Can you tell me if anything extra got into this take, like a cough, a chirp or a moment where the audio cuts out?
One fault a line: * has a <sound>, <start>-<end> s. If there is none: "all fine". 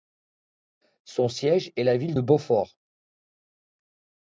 all fine